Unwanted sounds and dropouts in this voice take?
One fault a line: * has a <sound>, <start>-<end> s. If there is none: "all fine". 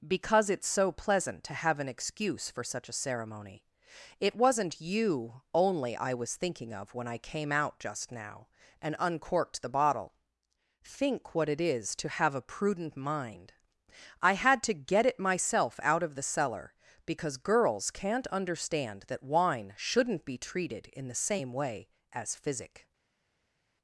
all fine